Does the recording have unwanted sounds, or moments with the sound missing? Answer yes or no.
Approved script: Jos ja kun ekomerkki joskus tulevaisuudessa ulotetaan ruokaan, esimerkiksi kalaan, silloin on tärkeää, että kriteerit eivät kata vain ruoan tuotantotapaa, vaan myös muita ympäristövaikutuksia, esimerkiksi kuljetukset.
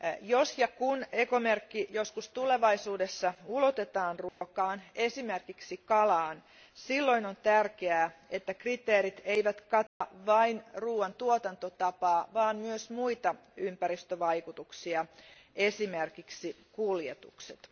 yes